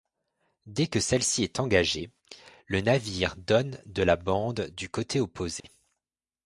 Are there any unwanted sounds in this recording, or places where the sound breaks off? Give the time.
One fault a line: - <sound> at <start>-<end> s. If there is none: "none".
- dropout at 5.6-5.6 s